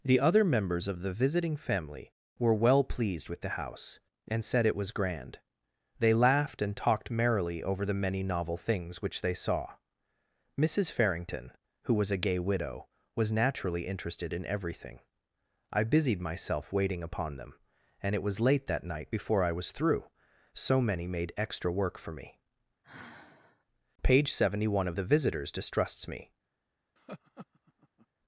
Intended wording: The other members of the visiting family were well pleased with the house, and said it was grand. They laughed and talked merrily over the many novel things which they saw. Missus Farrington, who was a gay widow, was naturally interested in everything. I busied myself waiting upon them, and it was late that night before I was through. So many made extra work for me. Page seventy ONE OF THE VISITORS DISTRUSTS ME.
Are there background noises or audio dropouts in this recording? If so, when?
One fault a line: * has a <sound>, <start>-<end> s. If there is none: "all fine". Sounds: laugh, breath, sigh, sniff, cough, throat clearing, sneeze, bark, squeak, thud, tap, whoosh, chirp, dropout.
* has a sigh, 22.8-23.6 s
* has a laugh, 27.0-28.1 s